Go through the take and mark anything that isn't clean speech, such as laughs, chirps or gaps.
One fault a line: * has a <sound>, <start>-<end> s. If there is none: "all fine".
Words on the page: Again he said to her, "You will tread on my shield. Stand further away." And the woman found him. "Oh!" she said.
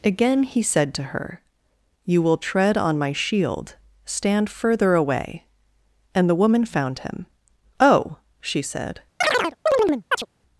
* has a chirp, 9.2-10.3 s